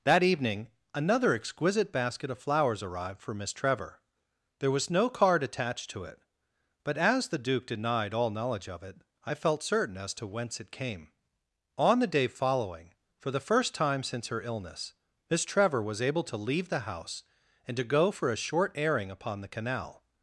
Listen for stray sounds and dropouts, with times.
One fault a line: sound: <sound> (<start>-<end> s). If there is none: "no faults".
no faults